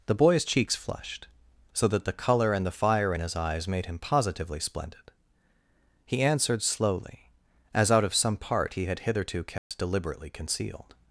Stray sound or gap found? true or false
true